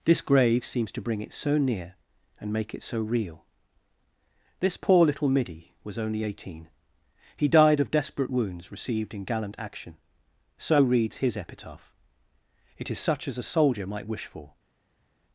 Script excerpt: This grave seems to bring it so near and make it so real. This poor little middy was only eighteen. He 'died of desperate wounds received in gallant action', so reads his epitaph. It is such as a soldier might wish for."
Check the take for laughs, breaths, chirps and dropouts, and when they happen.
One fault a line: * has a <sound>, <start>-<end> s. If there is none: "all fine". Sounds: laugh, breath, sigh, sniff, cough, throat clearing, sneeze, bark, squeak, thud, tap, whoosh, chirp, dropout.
all fine